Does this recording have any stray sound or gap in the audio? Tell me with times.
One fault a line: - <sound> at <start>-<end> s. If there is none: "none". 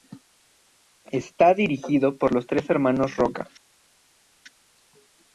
none